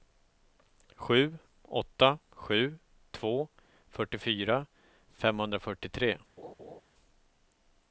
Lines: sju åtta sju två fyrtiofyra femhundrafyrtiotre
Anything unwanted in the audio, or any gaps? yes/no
yes